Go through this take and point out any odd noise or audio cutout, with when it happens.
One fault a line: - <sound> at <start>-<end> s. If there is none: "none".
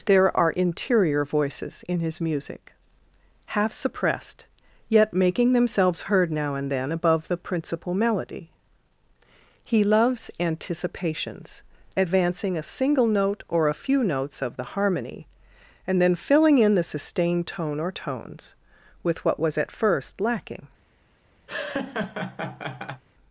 - laugh at 21.5-23.0 s